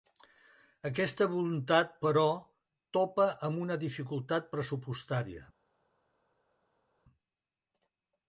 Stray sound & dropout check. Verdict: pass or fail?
pass